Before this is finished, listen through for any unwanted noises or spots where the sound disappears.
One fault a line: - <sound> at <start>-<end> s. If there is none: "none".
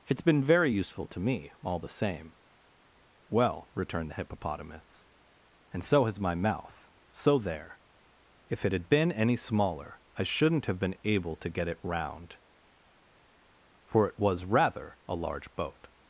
none